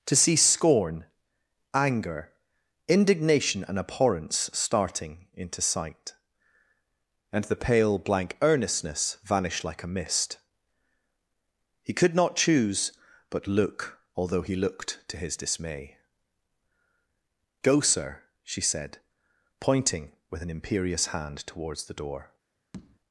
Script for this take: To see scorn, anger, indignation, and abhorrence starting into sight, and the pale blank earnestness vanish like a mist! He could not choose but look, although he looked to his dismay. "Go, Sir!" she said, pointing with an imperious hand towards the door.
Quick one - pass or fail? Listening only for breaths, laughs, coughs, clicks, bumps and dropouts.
fail